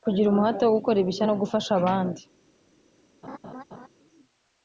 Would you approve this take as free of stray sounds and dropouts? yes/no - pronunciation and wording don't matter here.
no